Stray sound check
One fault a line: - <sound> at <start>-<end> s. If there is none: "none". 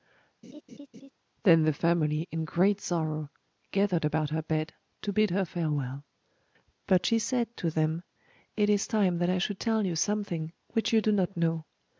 - laugh at 0.4-1.1 s